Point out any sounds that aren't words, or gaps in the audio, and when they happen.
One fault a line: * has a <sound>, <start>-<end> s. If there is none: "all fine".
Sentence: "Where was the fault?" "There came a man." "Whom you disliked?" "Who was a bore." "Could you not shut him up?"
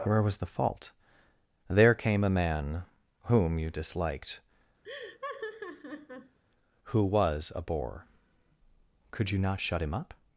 * has a laugh, 4.8-6.4 s